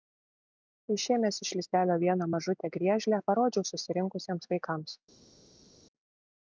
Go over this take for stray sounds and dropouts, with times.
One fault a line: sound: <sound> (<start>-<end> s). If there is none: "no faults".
no faults